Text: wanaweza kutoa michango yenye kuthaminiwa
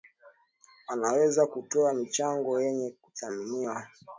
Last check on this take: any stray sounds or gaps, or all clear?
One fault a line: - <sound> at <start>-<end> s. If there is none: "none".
none